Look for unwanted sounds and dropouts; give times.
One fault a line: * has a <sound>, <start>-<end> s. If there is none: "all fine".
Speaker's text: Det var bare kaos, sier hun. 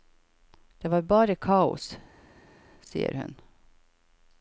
all fine